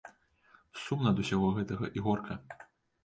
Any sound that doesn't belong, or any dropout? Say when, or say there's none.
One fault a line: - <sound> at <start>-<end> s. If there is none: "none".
none